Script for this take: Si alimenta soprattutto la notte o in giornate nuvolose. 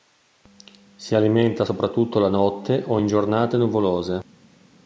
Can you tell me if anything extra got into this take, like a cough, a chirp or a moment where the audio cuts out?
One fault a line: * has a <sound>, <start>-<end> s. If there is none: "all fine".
all fine